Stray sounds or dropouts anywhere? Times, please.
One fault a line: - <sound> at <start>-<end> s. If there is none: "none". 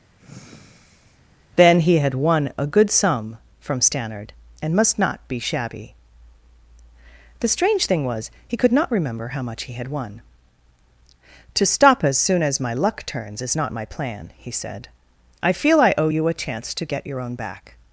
- sigh at 0.2-1.2 s